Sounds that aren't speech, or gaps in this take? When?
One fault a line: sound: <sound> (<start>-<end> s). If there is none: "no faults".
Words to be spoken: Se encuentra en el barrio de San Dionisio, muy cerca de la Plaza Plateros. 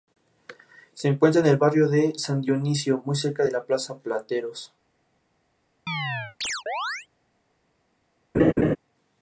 sound: chirp (5.9-7.1 s)
sound: laugh (8.3-8.8 s)